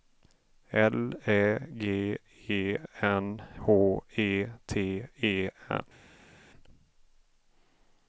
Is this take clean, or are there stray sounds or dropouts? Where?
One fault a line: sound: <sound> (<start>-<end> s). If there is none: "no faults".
no faults